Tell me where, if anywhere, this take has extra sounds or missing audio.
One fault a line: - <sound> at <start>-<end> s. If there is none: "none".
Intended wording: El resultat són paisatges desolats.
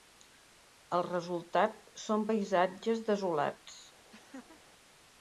- laugh at 4.1-4.6 s